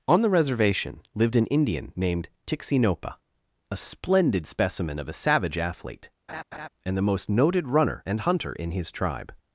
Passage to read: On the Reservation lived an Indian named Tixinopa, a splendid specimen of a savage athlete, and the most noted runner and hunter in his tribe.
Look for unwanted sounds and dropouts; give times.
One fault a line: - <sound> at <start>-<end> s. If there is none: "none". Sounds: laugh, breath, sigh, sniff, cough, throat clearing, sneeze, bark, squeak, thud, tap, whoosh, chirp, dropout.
- laugh at 6.3-6.7 s